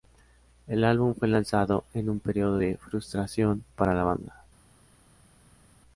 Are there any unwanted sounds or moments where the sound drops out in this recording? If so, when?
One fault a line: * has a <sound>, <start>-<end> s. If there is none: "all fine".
all fine